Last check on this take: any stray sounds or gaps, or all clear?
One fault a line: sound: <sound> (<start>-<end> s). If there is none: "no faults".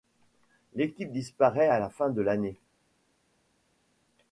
no faults